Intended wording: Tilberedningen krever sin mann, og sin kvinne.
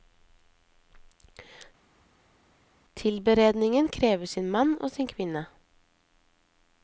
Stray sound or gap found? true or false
false